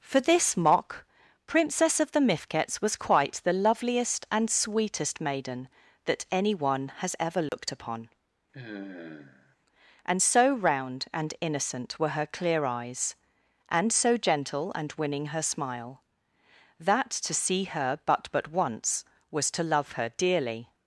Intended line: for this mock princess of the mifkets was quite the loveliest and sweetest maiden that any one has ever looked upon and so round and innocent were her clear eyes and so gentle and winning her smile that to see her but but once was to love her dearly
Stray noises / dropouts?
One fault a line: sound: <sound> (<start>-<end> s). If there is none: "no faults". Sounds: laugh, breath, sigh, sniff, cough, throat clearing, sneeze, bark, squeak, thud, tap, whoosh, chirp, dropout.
sound: dropout (7.5-7.5 s)
sound: sigh (8.5-9.6 s)